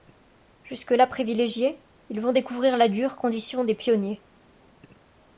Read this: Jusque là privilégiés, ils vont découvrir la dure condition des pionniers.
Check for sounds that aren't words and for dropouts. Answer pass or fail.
pass